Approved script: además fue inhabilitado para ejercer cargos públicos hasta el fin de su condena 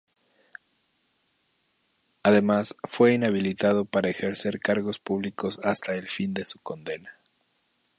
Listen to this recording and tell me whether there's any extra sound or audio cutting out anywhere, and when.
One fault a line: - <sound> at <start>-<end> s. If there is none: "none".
none